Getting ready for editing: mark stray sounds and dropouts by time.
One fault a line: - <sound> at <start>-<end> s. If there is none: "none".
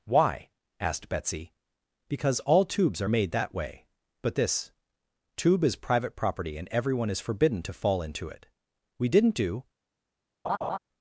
- laugh at 10.4-10.8 s